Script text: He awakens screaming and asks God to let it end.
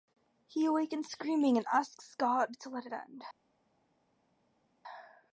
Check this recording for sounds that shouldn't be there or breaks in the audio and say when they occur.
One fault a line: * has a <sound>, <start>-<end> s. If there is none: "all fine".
all fine